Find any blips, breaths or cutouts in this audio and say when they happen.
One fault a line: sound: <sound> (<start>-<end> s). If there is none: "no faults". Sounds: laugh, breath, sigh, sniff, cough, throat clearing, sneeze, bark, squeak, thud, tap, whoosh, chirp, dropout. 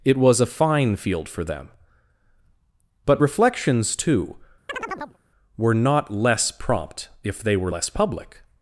sound: chirp (4.7-5.2 s)